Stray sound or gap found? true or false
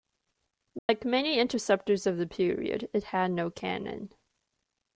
true